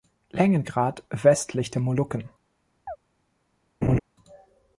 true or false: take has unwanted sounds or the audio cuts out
true